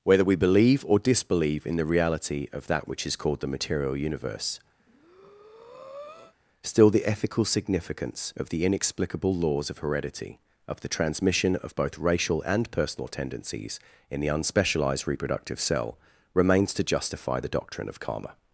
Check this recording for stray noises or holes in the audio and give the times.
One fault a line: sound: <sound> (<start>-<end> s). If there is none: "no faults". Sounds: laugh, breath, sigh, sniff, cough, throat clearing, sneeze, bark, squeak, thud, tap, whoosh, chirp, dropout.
sound: breath (4.8-6.3 s)